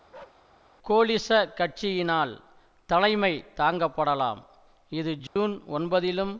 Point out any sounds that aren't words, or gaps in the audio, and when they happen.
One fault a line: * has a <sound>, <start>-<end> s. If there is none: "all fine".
* has a bark, 0.1-0.5 s
* has a dropout, 5.3-5.4 s